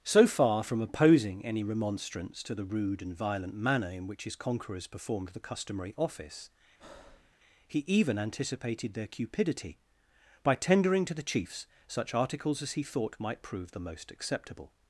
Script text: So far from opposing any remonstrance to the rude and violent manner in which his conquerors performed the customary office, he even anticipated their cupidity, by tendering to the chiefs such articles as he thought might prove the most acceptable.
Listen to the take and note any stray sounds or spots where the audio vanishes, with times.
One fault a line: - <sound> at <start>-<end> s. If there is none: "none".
- breath at 6.8-7.3 s